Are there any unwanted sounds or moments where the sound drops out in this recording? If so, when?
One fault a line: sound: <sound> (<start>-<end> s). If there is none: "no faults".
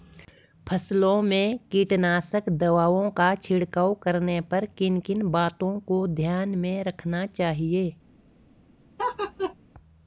sound: laugh (9.0-9.5 s)